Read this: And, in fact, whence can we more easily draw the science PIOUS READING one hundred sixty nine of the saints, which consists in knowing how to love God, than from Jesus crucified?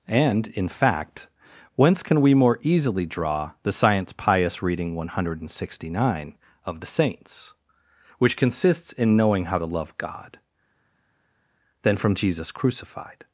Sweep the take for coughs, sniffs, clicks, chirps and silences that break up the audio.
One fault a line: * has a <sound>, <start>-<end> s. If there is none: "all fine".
all fine